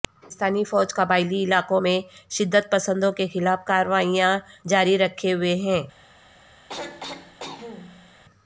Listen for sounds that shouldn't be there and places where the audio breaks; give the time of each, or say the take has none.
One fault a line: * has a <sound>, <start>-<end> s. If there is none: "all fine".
* has a throat clearing, 6.7-8.2 s